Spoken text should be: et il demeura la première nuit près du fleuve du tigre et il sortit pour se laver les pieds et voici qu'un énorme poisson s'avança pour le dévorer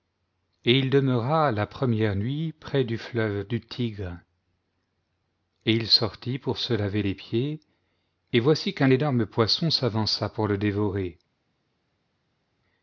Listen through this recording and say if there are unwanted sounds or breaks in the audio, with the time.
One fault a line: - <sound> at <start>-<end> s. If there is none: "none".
none